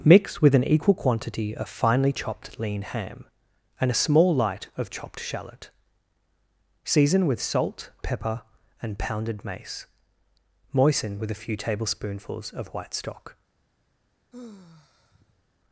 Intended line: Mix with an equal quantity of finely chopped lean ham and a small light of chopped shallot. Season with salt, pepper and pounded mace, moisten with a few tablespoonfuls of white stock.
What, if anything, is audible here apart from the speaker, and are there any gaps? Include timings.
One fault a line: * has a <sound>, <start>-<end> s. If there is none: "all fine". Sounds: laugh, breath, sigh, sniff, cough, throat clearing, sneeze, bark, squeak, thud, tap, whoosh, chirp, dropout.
* has a sigh, 14.3-15.4 s